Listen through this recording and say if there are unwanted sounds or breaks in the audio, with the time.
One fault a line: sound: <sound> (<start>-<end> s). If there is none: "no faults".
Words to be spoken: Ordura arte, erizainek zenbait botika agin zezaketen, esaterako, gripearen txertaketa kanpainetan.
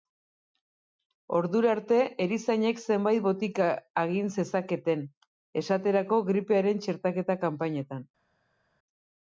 no faults